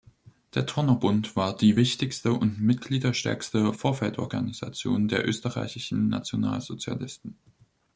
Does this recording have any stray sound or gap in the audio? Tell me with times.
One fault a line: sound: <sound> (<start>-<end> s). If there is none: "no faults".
no faults